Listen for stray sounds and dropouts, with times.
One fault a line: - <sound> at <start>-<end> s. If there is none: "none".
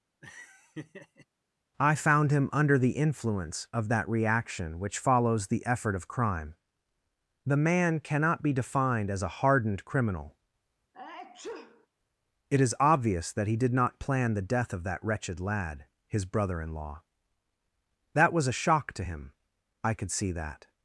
- laugh at 0.2-1.3 s
- sneeze at 10.9-11.9 s